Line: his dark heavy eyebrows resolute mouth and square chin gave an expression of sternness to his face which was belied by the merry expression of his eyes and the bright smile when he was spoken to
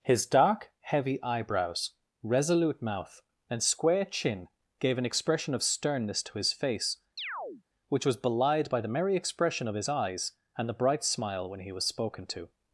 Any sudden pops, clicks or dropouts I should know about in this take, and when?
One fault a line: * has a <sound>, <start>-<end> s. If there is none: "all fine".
* has a chirp, 7.2-7.6 s